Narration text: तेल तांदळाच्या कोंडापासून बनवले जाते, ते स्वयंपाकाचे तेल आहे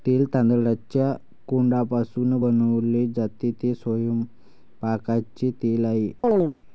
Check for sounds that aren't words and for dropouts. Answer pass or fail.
fail